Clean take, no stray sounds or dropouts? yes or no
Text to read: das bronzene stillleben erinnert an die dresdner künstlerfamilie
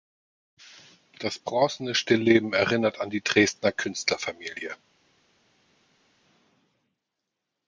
yes